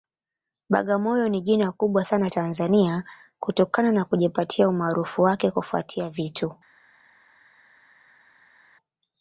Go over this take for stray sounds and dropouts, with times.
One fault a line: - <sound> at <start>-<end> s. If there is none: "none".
none